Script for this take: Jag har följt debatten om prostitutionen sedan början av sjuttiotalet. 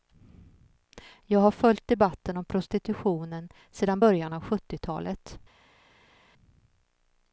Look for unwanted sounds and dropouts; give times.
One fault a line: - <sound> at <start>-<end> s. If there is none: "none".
none